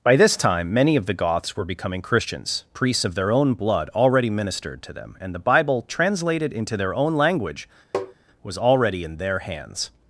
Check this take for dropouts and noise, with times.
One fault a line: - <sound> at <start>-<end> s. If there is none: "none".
- tap at 7.9-8.1 s